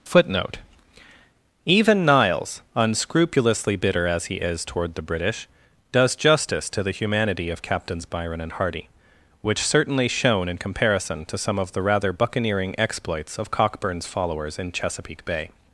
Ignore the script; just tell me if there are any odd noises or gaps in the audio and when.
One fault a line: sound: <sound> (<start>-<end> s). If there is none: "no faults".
no faults